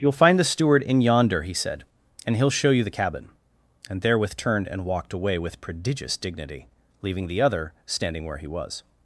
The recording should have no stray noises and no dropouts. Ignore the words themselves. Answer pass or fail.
pass